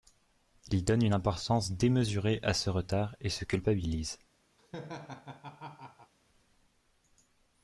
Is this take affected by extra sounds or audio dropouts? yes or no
yes